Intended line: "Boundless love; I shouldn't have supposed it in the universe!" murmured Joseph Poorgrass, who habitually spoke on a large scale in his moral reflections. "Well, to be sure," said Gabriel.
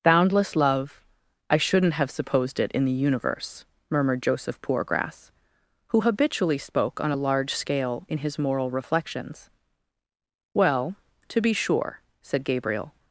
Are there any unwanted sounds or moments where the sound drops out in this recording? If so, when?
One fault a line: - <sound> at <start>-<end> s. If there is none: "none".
none